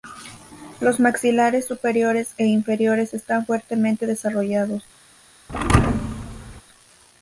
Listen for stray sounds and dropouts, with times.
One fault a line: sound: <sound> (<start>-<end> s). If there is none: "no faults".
sound: thud (5.5-6.6 s)